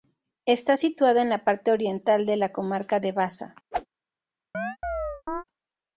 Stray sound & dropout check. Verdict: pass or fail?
fail